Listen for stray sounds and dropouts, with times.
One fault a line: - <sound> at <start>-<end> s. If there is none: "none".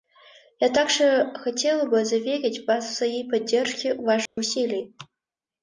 - dropout at 4.3-4.4 s